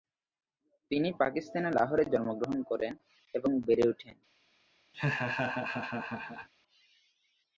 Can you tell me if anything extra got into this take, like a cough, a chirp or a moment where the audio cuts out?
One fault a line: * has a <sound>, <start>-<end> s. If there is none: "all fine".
* has a laugh, 4.9-6.5 s